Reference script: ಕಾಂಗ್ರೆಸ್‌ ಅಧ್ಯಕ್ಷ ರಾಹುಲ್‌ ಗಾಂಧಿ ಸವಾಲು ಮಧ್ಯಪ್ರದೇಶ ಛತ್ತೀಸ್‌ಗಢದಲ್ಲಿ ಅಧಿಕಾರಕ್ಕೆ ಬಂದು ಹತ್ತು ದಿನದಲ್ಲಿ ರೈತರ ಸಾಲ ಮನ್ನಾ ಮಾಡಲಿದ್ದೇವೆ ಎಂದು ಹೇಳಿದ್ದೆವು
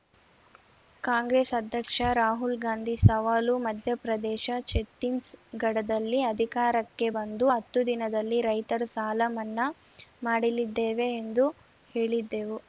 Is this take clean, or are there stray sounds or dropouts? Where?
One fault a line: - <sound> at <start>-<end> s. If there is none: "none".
none